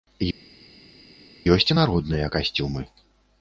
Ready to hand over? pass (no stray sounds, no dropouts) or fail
pass